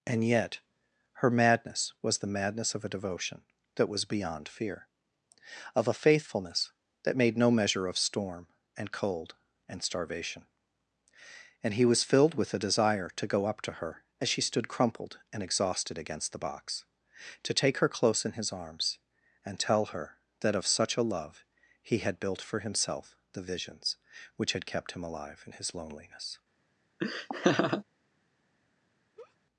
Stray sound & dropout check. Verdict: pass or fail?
fail